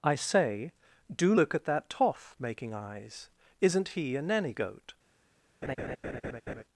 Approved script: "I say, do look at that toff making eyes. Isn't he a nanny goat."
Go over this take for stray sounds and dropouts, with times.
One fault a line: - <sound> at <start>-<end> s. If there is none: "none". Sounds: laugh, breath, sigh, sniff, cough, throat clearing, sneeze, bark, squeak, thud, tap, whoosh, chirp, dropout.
- laugh at 5.6-6.6 s